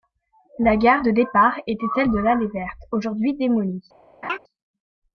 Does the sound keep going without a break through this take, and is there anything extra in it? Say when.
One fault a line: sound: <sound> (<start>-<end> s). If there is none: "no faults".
sound: laugh (4.2-4.4 s)